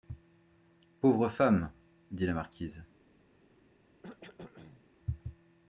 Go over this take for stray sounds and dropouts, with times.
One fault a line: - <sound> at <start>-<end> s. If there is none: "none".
- cough at 4.0-4.8 s